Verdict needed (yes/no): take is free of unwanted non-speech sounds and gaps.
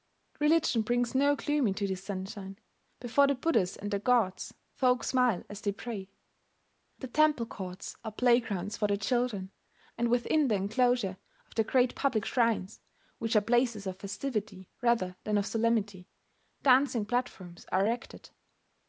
yes